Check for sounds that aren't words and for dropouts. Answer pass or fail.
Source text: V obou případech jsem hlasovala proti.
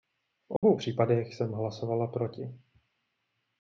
fail